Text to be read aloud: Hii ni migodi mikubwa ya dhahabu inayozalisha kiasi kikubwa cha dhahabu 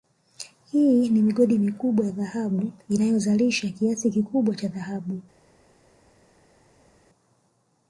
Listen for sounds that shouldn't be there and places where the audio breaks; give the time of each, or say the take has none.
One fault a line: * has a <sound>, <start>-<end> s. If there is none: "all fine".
all fine